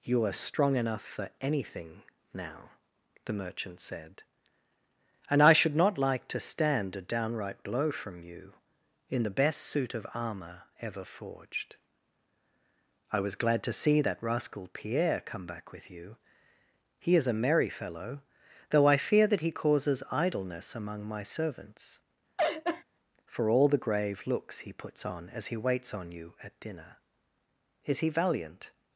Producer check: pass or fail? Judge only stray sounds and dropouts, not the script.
fail